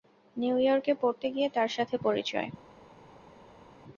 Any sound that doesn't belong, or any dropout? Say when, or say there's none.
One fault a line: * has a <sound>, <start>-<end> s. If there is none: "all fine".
all fine